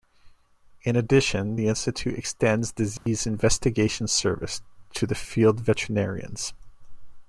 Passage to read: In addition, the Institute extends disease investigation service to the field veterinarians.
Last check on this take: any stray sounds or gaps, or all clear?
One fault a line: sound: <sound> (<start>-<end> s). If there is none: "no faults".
sound: dropout (3.0-3.1 s)